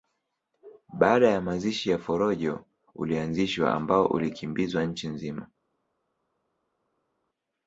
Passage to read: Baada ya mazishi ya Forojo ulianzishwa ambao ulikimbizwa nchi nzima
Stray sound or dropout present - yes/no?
no